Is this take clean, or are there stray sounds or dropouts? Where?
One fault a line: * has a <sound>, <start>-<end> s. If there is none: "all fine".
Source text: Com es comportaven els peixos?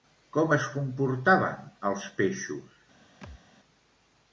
* has a thud, 3.2-3.4 s